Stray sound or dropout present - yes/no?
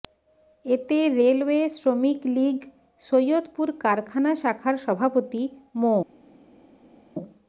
no